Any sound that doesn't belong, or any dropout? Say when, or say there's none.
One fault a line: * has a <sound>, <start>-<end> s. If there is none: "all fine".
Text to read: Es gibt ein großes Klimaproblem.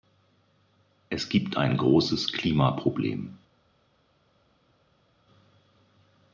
all fine